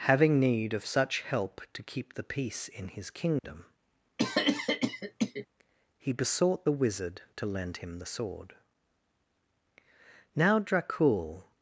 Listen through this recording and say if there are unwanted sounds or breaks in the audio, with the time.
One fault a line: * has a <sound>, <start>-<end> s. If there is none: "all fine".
* has a dropout, 3.4-3.4 s
* has a cough, 4.2-5.5 s